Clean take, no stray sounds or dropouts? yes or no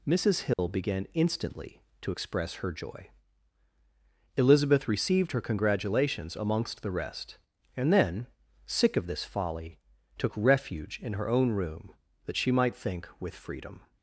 no